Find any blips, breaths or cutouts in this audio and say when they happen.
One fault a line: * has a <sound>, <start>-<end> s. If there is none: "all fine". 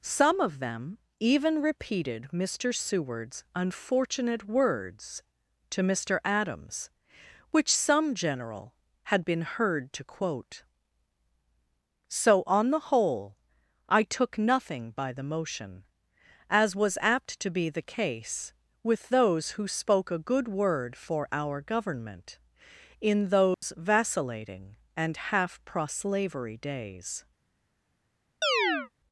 * has a dropout, 23.5-23.6 s
* has a chirp, 28.4-28.9 s